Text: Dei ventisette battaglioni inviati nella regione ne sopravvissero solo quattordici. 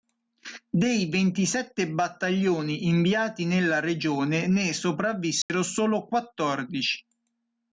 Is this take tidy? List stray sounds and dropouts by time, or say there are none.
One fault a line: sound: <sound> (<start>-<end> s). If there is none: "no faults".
sound: dropout (5.4-5.5 s)